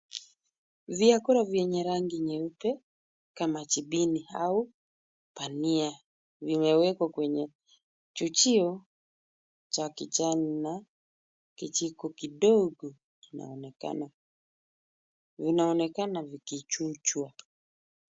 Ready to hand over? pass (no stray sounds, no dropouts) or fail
pass